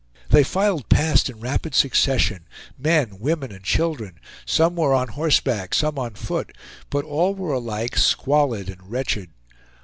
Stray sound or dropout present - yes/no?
no